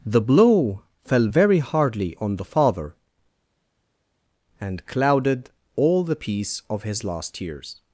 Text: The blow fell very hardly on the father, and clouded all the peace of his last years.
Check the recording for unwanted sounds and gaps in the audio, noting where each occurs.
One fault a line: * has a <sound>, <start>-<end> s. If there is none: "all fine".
all fine